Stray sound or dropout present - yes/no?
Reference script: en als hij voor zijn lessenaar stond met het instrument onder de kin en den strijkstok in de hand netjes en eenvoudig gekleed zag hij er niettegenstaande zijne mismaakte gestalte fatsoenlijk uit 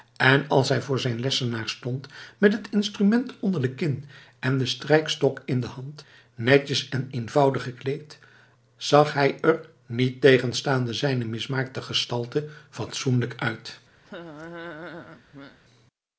yes